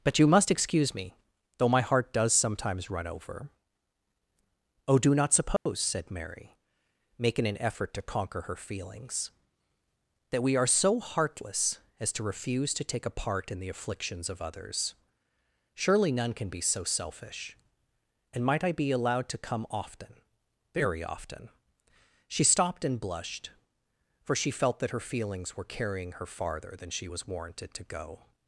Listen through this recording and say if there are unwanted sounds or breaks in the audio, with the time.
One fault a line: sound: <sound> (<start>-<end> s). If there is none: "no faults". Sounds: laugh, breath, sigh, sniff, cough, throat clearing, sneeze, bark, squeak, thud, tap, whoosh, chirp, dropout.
sound: dropout (5.6-5.7 s)